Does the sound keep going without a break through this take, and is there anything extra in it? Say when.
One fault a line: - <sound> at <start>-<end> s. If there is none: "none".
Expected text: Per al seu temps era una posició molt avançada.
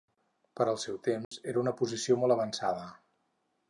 - dropout at 1.2-1.3 s